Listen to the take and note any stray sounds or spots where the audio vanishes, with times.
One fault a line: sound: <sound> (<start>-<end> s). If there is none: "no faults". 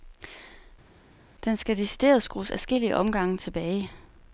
no faults